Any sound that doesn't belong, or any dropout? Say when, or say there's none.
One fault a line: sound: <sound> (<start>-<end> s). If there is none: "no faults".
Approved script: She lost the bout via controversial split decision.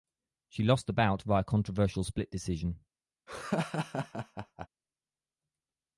sound: laugh (3.3-4.7 s)